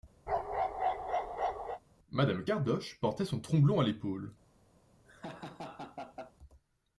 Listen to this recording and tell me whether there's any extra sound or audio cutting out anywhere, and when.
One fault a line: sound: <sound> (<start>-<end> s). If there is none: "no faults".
sound: bark (0.3-1.8 s)
sound: laugh (5.0-6.3 s)